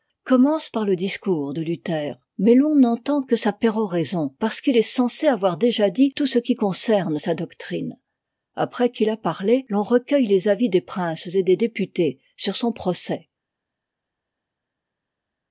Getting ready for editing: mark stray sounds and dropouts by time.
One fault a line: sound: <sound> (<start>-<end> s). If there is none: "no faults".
no faults